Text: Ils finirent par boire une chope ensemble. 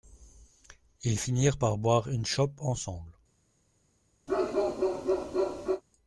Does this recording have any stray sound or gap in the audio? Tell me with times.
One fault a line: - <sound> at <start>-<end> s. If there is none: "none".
- bark at 4.3-5.8 s